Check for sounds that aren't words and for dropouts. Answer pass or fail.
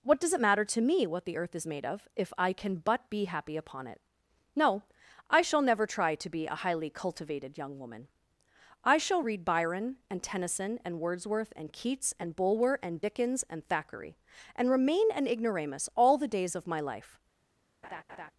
fail